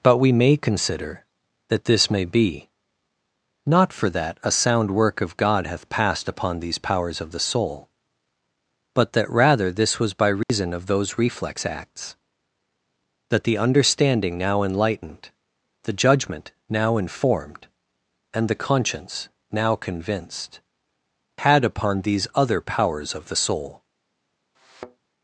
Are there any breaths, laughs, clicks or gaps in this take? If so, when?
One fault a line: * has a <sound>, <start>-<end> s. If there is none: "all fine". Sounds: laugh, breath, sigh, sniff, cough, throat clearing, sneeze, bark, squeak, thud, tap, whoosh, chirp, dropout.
* has a dropout, 10.4-10.5 s
* has a thud, 24.5-25.1 s